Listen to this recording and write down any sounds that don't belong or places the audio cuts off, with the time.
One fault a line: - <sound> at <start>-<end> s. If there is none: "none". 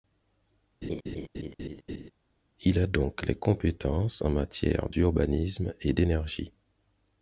- laugh at 0.8-2.1 s